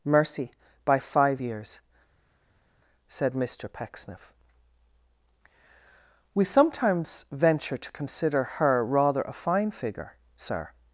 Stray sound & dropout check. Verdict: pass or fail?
pass